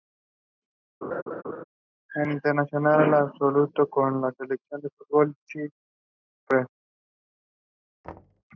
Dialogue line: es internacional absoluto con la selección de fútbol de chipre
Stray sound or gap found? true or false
true